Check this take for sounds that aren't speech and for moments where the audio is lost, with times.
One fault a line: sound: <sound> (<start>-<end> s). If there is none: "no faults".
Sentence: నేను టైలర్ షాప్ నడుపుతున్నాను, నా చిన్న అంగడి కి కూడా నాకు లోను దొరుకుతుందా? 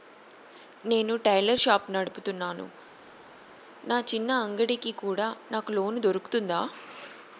no faults